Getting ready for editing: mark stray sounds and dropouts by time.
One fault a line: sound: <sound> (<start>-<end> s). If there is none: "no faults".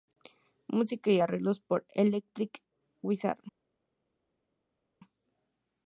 no faults